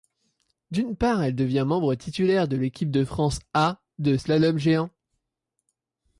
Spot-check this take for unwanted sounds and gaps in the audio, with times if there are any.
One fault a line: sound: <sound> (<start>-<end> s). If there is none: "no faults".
no faults